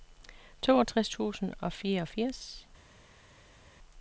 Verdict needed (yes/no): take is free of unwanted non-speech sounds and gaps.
yes